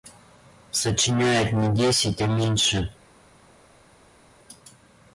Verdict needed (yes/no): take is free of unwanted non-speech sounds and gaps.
yes